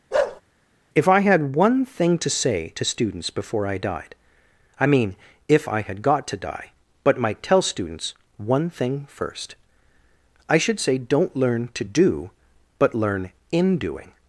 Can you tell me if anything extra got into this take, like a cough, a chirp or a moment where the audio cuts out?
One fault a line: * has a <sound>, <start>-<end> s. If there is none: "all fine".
* has a bark, 0.1-0.4 s